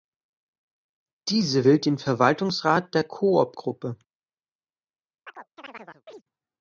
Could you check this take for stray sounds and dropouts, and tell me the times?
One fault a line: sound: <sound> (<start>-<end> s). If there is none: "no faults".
sound: chirp (5.3-6.2 s)